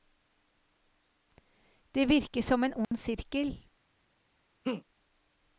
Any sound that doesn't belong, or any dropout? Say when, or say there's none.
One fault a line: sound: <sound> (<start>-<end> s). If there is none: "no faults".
sound: dropout (2.8-2.9 s)
sound: laugh (4.6-4.8 s)